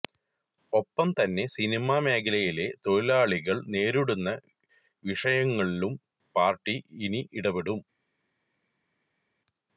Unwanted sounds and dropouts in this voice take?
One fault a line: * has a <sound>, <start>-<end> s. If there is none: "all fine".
all fine